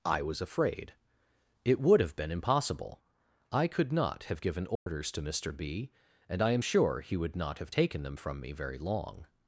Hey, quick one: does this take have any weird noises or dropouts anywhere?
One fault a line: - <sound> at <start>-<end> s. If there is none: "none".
- dropout at 4.8-4.9 s